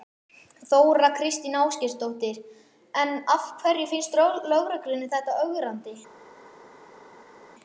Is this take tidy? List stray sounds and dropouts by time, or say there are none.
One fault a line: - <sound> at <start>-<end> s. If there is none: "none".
none